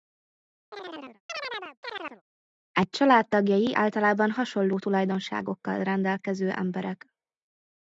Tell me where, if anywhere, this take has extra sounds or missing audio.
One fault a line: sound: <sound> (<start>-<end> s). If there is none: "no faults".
sound: chirp (0.7-2.2 s)